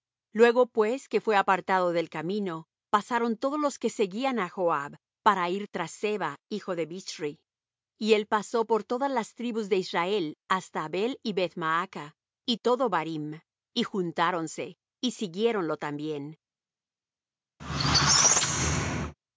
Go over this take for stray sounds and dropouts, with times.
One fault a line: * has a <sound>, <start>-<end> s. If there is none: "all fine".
* has a squeak, 17.6-19.1 s